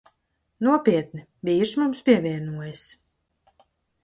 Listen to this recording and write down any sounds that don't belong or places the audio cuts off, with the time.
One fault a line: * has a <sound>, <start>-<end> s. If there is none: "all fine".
all fine